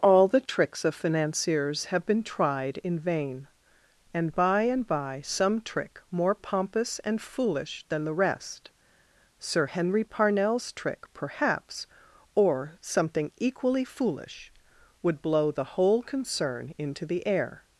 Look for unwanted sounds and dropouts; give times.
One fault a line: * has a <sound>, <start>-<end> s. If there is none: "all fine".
all fine